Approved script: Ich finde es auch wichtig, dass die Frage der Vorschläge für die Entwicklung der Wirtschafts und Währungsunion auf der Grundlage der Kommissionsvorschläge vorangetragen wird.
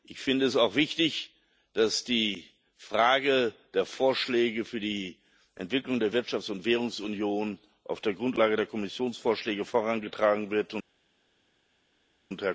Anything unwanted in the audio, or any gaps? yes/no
no